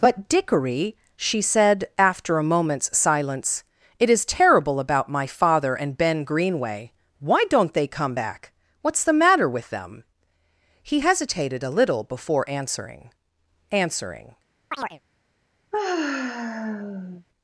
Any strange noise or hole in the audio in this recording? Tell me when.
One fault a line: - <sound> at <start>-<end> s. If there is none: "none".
- chirp at 14.7-15.0 s
- sigh at 15.7-17.3 s